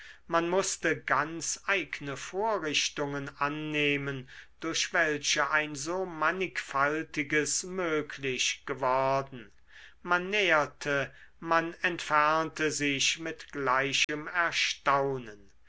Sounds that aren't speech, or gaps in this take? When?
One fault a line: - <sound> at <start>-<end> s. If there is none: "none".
- dropout at 14.0-14.1 s